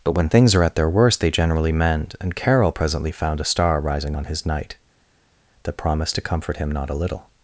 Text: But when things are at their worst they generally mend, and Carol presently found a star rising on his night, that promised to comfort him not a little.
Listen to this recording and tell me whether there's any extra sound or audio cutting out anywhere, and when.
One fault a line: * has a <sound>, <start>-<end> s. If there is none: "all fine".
all fine